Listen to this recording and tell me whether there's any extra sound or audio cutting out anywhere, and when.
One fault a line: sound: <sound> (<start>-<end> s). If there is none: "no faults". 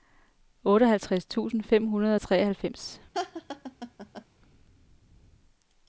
sound: laugh (3.1-4.3 s)